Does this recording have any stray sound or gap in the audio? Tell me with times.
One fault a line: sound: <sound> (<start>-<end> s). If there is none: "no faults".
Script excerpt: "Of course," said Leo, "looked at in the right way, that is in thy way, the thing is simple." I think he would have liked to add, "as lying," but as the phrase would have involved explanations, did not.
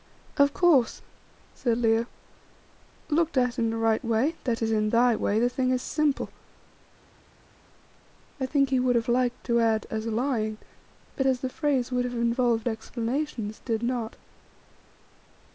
no faults